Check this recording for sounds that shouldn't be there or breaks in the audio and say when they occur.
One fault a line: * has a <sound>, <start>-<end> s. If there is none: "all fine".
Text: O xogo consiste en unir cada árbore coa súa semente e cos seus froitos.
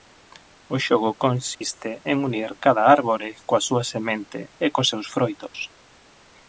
* has a dropout, 1.5-1.6 s